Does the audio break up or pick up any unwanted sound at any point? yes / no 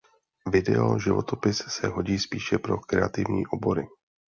no